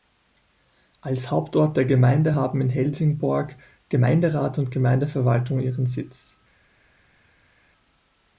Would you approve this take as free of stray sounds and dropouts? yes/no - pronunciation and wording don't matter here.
yes